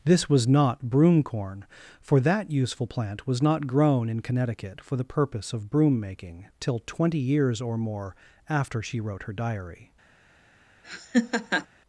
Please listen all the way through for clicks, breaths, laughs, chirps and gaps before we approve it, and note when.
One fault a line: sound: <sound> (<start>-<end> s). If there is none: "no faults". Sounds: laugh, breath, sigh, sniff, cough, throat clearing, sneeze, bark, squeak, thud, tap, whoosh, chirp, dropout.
sound: laugh (10.8-11.7 s)